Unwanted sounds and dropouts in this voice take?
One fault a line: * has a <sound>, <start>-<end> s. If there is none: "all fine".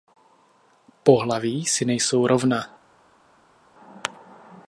all fine